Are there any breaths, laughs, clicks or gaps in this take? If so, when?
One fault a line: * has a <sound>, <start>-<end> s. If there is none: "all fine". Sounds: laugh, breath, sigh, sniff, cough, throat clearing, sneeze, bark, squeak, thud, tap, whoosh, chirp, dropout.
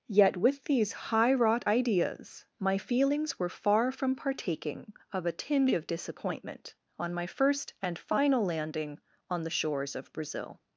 all fine